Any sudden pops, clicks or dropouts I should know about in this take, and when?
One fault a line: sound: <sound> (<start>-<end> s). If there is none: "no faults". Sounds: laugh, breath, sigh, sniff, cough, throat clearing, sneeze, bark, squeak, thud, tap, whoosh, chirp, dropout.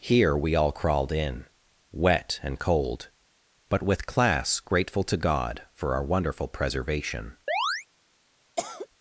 sound: chirp (7.5-7.9 s)
sound: cough (8.6-8.9 s)